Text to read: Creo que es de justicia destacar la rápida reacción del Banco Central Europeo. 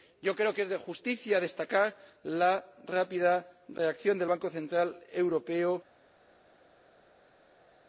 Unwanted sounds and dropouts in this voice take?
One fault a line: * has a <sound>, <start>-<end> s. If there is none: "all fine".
all fine